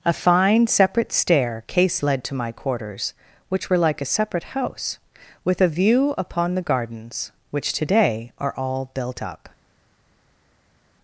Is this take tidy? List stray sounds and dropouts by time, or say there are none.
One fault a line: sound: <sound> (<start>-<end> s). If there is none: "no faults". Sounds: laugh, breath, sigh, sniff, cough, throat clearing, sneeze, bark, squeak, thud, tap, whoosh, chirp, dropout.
no faults